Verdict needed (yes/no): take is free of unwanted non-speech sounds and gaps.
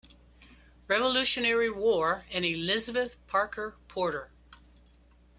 yes